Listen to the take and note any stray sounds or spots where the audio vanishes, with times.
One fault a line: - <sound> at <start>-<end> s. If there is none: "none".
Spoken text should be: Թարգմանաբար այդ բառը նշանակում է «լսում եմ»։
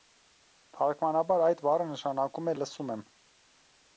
none